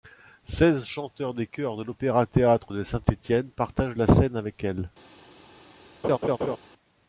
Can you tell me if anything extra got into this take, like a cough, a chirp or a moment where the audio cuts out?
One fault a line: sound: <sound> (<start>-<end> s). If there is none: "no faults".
sound: laugh (6.0-6.6 s)